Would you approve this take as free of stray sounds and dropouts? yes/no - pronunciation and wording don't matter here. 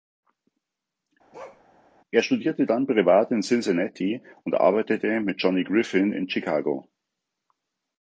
no